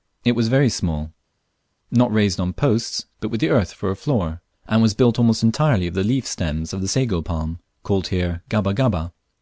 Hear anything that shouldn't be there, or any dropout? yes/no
no